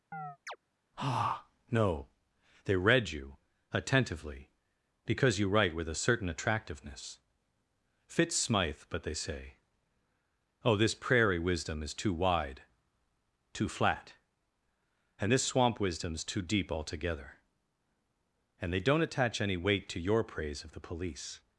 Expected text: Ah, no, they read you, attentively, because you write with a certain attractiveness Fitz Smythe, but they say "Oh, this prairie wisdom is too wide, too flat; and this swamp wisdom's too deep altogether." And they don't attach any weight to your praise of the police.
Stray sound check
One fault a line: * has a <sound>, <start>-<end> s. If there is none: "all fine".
* has a chirp, 0.1-0.6 s